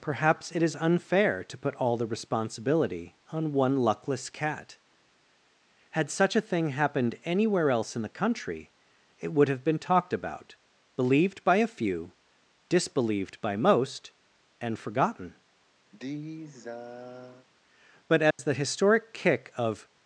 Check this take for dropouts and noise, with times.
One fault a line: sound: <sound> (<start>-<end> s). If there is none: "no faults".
sound: sigh (15.9-17.5 s)
sound: dropout (18.3-18.4 s)